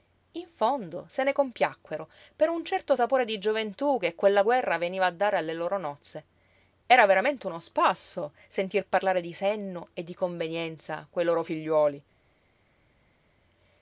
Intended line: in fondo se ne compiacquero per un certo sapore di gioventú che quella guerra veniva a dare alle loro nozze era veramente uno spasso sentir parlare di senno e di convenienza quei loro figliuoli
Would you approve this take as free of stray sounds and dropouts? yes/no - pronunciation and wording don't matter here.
yes